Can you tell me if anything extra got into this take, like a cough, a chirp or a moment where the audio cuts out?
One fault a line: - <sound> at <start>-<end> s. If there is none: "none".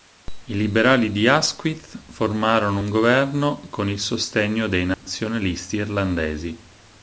- dropout at 4.9-5.1 s